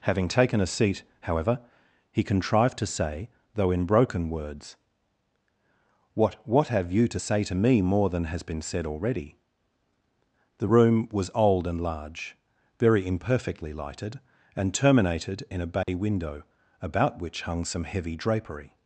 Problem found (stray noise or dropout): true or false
true